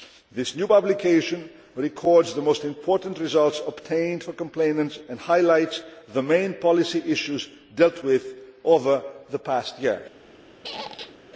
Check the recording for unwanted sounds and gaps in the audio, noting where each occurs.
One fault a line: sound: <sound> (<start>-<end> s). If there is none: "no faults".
sound: squeak (10.6-11.2 s)